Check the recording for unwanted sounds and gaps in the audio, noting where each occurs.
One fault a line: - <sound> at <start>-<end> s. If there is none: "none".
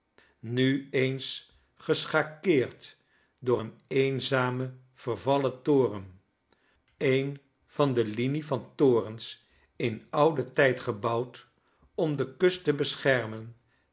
none